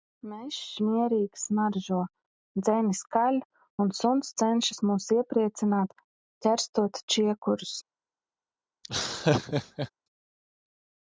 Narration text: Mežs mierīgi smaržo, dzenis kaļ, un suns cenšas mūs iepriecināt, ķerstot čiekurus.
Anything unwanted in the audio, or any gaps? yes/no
yes